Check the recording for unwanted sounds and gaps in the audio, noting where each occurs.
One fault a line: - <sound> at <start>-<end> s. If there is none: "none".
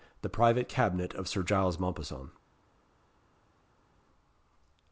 none